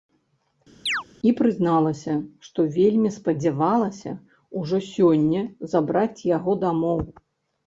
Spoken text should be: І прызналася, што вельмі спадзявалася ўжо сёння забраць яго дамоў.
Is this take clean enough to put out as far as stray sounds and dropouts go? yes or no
no